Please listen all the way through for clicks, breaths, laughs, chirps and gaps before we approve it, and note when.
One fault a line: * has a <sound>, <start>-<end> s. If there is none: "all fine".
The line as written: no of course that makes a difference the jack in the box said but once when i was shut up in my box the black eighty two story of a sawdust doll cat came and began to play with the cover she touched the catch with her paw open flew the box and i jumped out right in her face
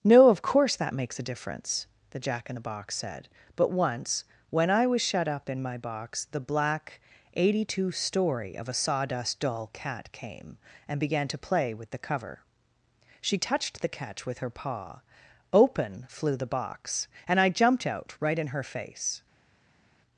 all fine